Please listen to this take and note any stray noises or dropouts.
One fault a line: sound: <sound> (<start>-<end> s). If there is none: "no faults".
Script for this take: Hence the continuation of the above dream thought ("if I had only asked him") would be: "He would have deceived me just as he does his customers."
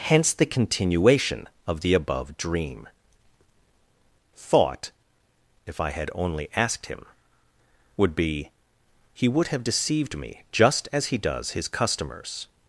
no faults